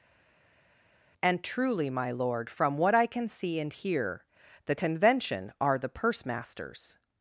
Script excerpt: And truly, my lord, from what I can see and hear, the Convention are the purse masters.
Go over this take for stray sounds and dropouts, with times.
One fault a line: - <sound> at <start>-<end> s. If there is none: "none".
none